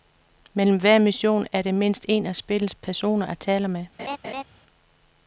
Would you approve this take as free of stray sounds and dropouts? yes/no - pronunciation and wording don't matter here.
no